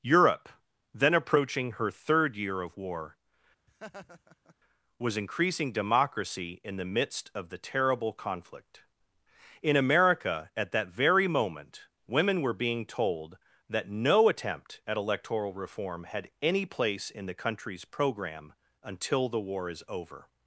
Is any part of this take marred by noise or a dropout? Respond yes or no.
yes